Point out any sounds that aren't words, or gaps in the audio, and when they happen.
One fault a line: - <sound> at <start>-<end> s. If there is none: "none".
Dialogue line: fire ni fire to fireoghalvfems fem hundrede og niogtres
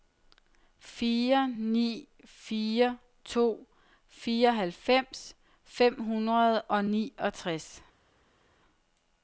none